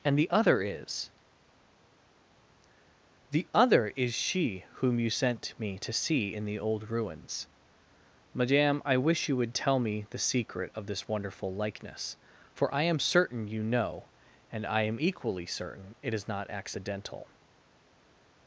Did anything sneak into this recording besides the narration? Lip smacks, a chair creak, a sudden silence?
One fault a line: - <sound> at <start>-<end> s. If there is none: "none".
none